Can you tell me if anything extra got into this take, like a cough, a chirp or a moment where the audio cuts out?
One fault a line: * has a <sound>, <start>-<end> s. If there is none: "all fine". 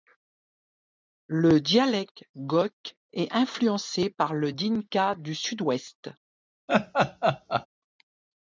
* has a laugh, 6.7-7.7 s